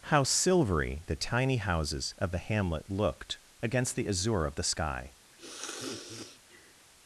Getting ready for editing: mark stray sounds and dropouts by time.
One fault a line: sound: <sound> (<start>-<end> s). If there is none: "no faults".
sound: sniff (5.3-6.9 s)